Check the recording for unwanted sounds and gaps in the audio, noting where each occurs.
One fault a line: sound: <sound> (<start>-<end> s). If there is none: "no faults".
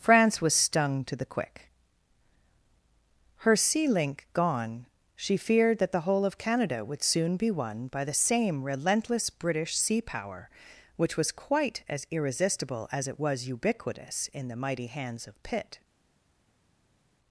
no faults